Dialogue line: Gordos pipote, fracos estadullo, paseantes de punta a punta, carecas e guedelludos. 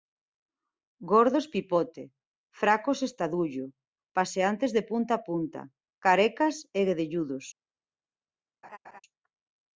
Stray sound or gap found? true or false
true